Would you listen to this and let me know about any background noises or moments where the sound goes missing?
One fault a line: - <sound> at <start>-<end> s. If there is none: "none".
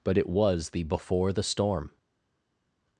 none